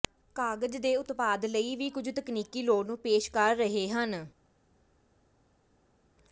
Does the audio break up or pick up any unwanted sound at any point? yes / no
no